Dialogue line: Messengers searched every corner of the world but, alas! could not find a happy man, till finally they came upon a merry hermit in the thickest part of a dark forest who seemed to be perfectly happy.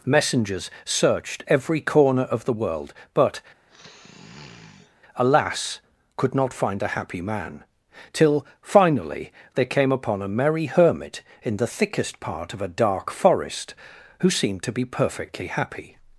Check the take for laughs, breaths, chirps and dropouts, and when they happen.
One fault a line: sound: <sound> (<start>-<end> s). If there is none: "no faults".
sound: sniff (3.7-5.0 s)